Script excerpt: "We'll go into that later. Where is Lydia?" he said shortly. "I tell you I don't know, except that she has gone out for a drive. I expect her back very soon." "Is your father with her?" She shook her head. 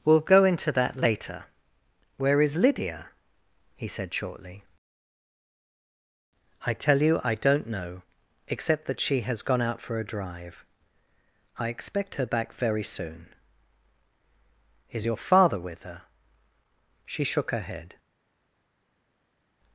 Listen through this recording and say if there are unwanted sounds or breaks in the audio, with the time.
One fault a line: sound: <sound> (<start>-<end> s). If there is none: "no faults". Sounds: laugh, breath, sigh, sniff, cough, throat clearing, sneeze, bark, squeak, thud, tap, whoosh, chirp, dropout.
no faults